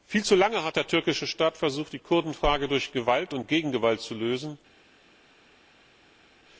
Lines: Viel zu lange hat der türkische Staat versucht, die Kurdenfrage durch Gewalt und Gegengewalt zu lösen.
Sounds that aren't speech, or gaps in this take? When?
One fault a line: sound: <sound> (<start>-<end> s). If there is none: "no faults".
no faults